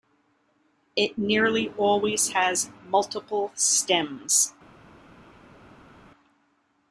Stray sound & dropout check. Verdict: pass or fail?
pass